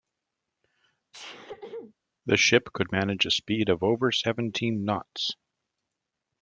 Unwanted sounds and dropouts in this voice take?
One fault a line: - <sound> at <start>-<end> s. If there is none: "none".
- sneeze at 1.1-1.9 s